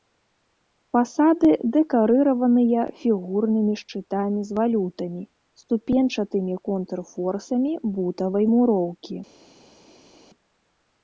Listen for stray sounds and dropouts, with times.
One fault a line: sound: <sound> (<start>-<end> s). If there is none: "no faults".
no faults